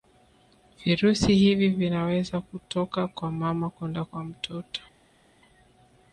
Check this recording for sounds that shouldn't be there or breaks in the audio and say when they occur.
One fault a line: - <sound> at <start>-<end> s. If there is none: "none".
none